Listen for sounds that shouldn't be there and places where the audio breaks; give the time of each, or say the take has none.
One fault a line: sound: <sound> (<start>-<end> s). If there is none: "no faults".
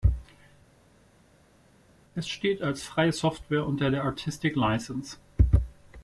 no faults